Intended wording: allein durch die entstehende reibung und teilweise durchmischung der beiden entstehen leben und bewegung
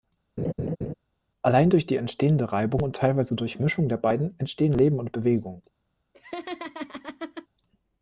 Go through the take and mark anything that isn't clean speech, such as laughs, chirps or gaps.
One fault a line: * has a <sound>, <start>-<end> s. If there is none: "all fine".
* has a laugh, 0.4-0.9 s
* has a laugh, 6.1-7.5 s